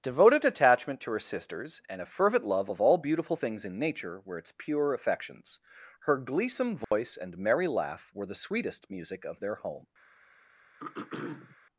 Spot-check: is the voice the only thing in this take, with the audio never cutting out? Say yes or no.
no